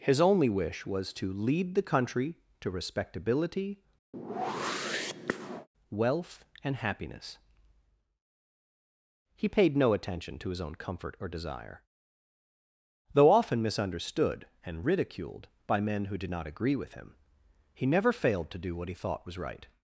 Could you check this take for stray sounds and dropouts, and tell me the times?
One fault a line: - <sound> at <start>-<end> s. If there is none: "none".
- whoosh at 4.1-5.7 s